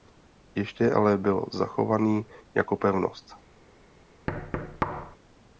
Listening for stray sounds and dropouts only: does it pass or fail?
fail